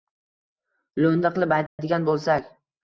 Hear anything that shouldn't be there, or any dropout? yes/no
yes